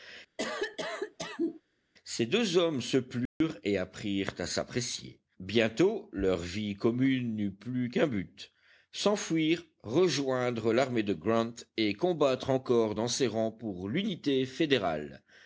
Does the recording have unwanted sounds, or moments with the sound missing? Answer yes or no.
yes